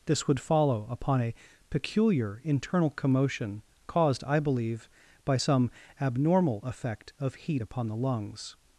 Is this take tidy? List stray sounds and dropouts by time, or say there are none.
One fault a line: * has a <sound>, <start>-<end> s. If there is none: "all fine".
all fine